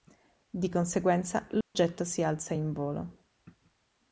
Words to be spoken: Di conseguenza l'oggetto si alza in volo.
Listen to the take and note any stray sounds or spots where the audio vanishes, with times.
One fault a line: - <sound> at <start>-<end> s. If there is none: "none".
- dropout at 1.6-1.7 s